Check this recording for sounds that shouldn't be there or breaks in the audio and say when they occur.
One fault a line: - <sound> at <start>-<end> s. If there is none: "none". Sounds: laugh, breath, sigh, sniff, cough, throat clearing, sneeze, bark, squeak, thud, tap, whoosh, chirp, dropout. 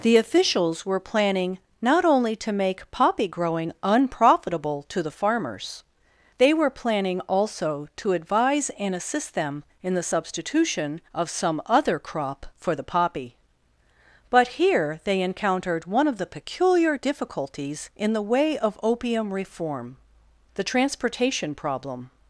none